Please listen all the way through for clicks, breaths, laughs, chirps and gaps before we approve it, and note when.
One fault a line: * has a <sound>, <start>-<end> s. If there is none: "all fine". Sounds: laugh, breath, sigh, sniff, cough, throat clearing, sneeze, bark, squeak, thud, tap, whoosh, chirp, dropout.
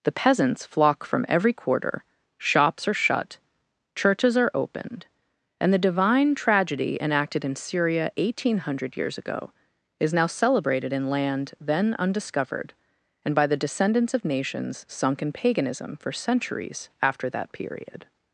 all fine